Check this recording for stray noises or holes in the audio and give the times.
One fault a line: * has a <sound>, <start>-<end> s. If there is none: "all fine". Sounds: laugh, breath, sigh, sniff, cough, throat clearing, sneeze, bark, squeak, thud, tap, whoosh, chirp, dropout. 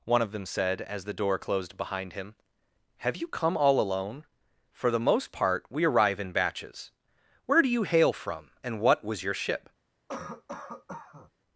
* has a cough, 10.1-11.3 s